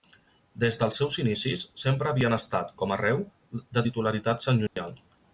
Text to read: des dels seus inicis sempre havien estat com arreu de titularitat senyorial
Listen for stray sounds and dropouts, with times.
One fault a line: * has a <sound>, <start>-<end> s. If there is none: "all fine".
* has a dropout, 4.7-4.8 s